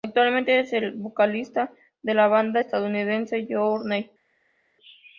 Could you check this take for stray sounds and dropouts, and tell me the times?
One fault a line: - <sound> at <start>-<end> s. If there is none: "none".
none